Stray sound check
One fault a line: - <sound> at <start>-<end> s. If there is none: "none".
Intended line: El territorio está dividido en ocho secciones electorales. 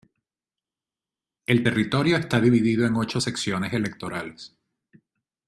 none